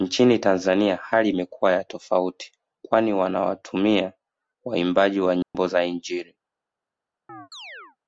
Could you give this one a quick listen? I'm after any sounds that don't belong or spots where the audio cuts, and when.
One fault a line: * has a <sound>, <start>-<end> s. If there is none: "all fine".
* has a dropout, 5.4-5.5 s
* has a chirp, 7.3-8.0 s